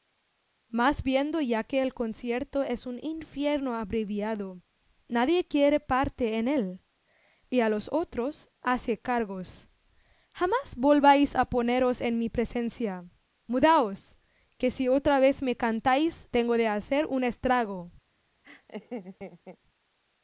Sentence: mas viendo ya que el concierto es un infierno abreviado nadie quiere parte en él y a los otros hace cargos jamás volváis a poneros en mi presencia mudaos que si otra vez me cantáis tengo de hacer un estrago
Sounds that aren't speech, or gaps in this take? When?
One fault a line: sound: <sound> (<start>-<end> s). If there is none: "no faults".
sound: laugh (18.4-19.6 s)